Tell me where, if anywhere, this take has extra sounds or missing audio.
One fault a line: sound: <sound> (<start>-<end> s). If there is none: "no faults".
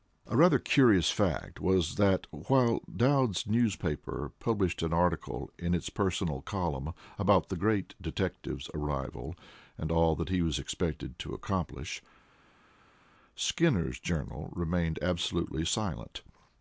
no faults